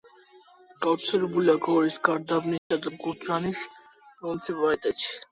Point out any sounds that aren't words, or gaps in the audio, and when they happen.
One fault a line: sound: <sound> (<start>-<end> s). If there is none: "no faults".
sound: dropout (2.6-2.7 s)